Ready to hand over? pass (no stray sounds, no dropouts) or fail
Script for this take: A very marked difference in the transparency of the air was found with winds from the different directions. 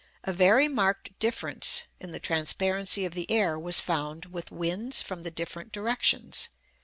pass